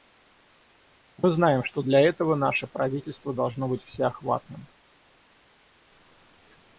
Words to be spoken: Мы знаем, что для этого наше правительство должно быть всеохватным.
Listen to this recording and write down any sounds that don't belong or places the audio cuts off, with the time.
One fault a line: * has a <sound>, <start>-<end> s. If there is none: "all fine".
all fine